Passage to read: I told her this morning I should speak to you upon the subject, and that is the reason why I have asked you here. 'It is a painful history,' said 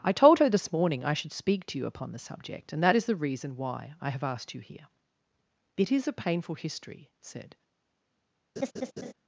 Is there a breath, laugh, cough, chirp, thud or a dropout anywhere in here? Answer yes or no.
yes